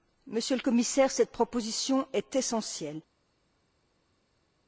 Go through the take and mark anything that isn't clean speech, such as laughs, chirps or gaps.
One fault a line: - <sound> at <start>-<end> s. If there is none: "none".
none